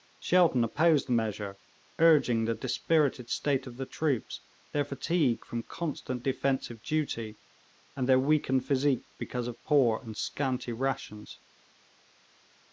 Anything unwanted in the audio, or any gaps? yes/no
no